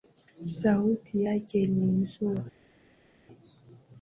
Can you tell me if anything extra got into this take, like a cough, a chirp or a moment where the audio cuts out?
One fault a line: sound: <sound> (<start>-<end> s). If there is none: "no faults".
no faults